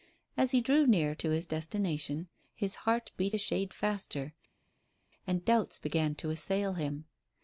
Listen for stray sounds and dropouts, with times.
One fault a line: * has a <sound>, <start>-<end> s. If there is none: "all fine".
all fine